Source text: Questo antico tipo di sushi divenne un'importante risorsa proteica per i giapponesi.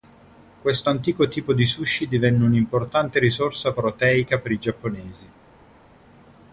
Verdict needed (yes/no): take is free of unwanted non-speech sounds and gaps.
yes